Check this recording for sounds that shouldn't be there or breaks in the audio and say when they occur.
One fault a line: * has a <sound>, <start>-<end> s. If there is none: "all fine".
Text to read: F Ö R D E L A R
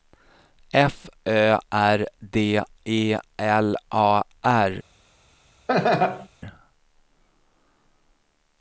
* has a laugh, 5.7-6.3 s